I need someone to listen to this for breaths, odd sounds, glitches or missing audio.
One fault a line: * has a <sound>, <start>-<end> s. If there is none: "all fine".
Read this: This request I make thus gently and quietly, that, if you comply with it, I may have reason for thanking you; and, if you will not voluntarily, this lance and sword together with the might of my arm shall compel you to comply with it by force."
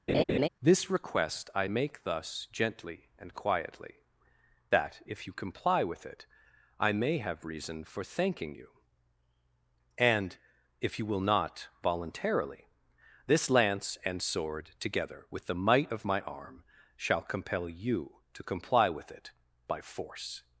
* has a laugh, 0.1-0.5 s